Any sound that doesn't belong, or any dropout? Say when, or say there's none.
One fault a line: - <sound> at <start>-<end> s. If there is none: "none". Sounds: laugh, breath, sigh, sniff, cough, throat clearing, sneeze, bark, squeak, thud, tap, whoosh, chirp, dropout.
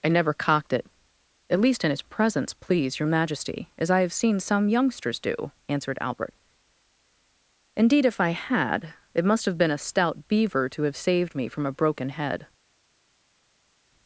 none